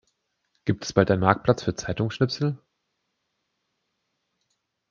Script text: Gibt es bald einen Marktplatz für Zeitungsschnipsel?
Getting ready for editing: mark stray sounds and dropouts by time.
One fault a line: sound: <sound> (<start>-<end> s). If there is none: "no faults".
no faults